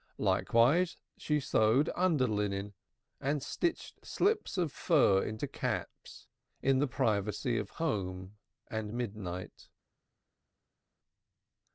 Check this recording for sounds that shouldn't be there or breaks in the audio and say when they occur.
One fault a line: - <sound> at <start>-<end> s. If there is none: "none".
none